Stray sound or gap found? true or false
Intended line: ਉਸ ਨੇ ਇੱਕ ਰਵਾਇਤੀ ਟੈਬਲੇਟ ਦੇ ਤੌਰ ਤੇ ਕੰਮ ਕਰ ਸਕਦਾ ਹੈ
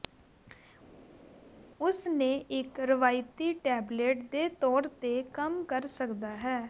false